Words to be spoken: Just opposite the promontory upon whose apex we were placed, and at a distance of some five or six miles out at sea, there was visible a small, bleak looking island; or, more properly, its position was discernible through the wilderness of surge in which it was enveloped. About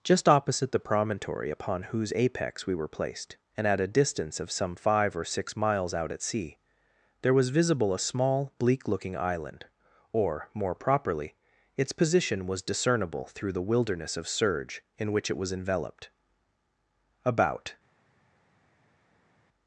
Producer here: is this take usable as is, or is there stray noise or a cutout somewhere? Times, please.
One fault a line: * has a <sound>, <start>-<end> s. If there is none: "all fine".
all fine